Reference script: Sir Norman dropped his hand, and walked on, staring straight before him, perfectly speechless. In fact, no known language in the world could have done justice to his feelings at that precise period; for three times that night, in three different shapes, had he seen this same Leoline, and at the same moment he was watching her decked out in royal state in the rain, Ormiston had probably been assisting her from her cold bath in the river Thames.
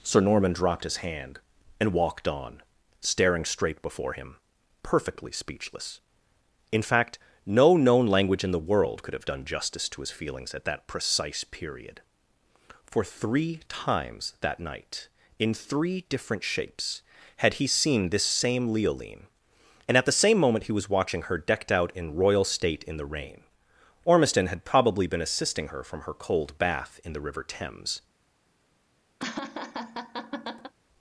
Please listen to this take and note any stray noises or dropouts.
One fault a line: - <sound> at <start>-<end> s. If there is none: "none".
- laugh at 29.2-30.7 s